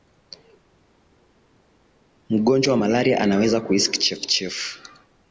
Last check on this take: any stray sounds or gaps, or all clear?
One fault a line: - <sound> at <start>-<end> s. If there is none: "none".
none